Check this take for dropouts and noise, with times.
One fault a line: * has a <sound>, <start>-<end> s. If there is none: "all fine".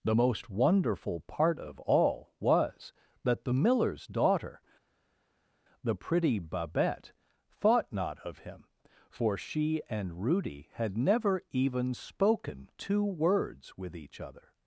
all fine